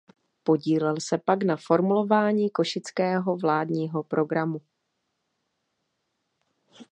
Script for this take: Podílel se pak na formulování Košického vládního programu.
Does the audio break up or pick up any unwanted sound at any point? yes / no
no